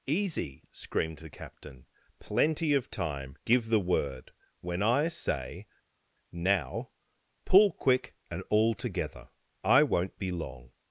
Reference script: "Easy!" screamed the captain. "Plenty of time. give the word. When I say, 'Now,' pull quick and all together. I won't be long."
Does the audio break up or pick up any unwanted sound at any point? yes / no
no